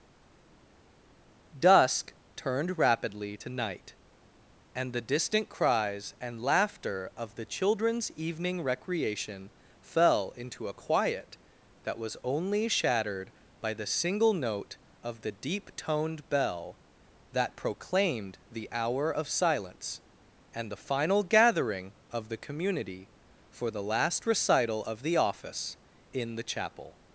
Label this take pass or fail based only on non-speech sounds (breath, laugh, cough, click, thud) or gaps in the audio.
pass